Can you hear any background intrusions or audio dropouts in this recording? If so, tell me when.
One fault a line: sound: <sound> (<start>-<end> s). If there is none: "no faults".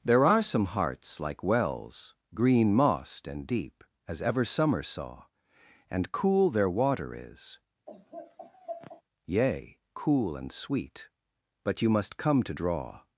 sound: laugh (7.9-9.0 s)